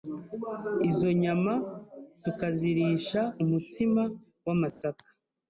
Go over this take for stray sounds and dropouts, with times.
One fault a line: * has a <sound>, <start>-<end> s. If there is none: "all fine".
* has a dropout, 4.7-4.8 s